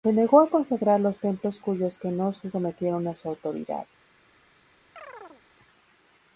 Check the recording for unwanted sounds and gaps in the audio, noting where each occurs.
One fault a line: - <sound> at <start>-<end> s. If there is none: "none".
- chirp at 5.0-5.4 s